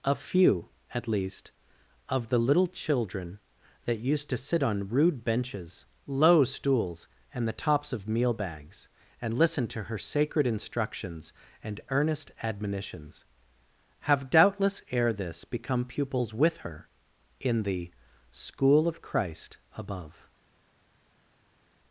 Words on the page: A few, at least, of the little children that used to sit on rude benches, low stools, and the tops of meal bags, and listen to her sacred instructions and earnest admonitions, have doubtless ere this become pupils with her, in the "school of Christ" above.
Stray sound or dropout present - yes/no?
no